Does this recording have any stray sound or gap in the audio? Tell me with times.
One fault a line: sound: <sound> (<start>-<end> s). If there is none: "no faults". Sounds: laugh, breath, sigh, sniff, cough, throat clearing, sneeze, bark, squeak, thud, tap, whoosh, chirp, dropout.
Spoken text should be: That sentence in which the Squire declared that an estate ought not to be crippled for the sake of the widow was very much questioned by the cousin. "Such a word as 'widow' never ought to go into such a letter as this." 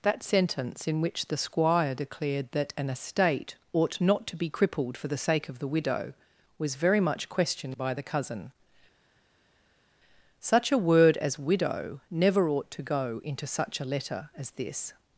no faults